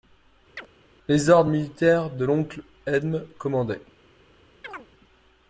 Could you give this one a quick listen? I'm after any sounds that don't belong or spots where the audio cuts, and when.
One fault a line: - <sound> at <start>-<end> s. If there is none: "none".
- chirp at 0.6-0.7 s
- chirp at 4.6-4.9 s